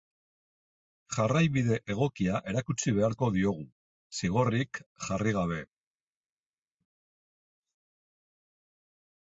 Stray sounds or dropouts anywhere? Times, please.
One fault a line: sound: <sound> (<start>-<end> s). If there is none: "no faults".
no faults